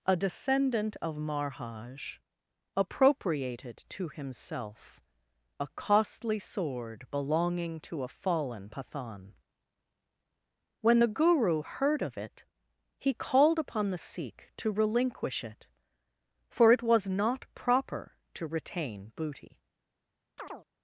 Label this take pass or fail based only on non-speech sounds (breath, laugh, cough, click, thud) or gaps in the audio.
fail